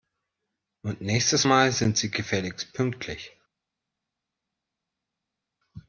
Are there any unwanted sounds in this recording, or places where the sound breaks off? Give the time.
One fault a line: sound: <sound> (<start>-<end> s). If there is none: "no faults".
no faults